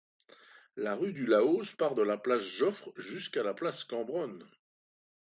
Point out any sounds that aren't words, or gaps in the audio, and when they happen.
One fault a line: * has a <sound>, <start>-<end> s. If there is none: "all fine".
all fine